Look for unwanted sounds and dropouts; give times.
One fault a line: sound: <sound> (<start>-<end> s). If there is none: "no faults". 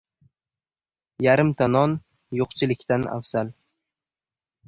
no faults